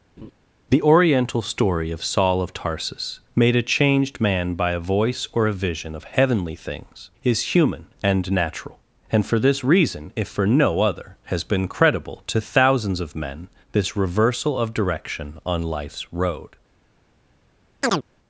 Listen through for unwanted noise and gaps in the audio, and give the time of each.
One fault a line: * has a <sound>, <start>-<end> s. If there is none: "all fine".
* has a laugh, 0.2-0.3 s
* has a chirp, 17.8-18.0 s